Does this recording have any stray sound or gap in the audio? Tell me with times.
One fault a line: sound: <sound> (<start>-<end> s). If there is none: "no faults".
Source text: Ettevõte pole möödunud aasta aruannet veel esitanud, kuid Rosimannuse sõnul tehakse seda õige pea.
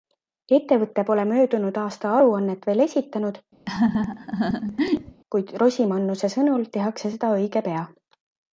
sound: laugh (3.7-5.2 s)